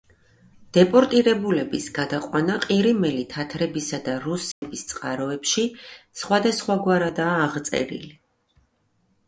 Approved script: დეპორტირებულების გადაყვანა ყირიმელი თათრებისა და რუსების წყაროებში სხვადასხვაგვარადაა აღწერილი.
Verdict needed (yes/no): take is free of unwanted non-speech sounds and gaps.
no